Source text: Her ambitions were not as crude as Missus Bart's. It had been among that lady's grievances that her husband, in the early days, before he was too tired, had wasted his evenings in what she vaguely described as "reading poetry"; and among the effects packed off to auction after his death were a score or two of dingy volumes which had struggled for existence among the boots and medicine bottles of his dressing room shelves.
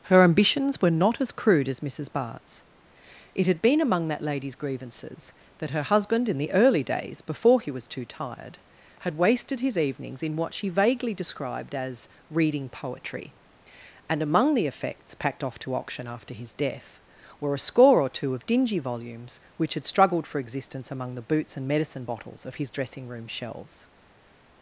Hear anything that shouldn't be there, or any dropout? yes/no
no